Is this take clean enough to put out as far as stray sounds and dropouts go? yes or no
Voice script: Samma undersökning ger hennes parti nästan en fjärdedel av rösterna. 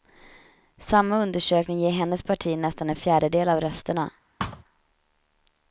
no